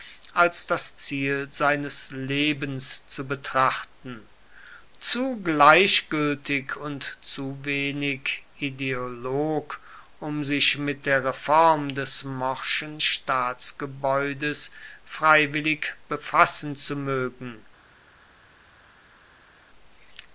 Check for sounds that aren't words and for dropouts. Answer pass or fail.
pass